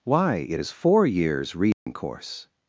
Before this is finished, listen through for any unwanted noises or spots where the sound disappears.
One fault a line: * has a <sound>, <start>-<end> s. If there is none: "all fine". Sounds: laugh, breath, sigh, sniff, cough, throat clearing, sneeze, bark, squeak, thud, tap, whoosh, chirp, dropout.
* has a dropout, 1.7-1.9 s